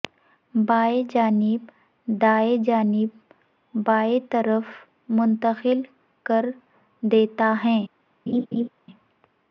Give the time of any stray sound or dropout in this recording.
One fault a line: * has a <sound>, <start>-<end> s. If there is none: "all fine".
* has a laugh, 8.3-8.7 s